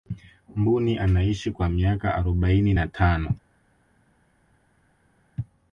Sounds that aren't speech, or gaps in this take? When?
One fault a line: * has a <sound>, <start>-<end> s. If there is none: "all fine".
all fine